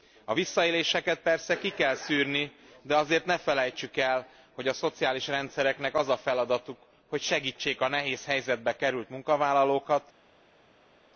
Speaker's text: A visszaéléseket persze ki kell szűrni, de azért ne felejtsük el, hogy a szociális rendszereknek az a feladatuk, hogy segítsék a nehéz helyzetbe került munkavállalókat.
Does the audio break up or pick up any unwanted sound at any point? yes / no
no